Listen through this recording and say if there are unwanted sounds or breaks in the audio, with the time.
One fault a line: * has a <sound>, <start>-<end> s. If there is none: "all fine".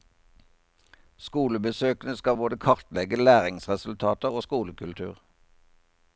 all fine